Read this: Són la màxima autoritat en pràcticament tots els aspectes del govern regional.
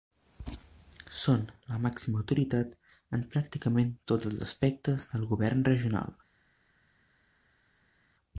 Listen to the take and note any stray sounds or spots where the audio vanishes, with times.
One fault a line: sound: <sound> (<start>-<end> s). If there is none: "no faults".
no faults